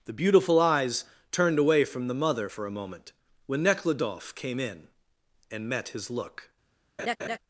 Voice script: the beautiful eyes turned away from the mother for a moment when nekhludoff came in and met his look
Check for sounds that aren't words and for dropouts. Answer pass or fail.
fail